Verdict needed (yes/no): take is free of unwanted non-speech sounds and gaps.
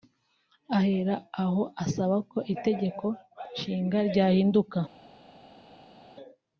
yes